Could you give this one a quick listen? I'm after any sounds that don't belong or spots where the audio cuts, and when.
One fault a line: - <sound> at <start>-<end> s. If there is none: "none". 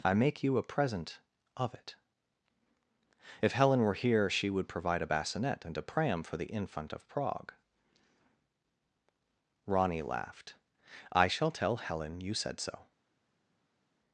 none